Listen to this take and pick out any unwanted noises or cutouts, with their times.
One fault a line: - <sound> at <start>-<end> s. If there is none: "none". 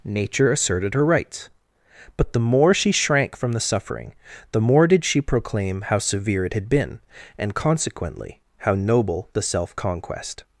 none